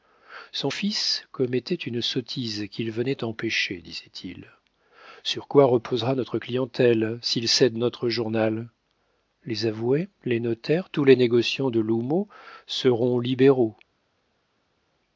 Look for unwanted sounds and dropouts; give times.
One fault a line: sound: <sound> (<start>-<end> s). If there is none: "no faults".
no faults